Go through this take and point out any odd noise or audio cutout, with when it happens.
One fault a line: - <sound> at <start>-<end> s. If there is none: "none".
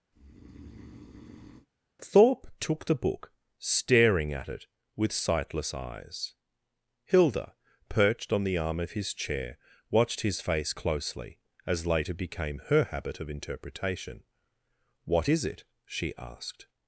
- breath at 0.1-1.7 s